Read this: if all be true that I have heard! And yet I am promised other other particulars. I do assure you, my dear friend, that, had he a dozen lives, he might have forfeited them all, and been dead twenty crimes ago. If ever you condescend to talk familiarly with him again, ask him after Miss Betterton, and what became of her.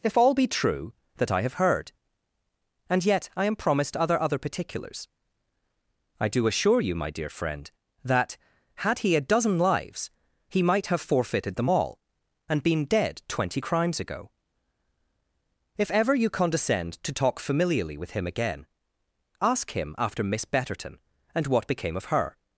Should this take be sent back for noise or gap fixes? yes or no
no